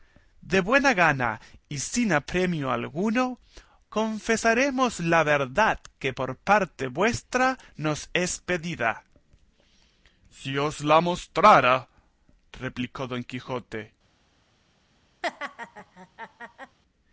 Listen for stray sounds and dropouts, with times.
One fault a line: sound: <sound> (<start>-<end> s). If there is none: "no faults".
sound: laugh (15.2-16.8 s)